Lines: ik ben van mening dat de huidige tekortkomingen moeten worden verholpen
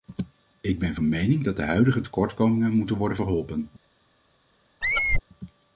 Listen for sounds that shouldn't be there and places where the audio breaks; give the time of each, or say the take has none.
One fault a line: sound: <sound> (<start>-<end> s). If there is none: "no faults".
sound: squeak (4.8-5.2 s)